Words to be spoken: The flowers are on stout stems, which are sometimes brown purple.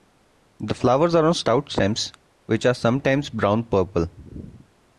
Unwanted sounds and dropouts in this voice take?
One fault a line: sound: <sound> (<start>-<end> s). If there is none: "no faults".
no faults